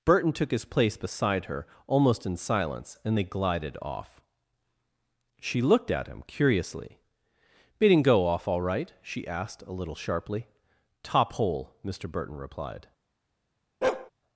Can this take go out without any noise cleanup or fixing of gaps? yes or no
no